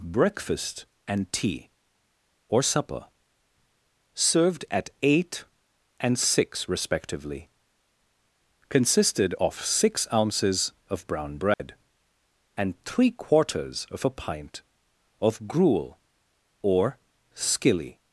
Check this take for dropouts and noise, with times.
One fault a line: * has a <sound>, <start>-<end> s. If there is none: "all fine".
* has a dropout, 11.5-11.6 s